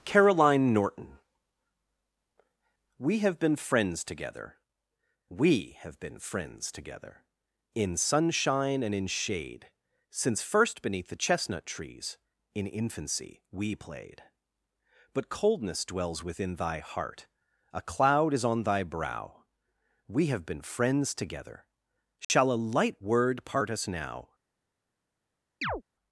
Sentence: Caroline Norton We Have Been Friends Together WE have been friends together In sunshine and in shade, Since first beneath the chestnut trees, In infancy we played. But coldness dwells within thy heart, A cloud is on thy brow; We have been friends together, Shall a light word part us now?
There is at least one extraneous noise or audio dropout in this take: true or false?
true